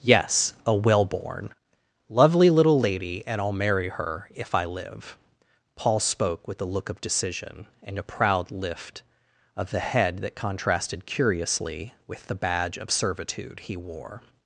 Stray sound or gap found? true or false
false